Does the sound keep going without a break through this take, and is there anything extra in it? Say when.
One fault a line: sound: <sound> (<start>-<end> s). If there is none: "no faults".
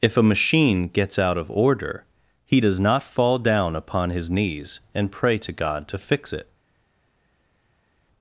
no faults